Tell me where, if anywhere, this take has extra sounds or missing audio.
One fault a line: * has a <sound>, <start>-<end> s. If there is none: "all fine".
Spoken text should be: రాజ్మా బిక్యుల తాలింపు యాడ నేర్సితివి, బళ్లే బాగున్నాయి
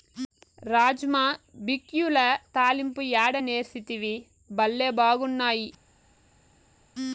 all fine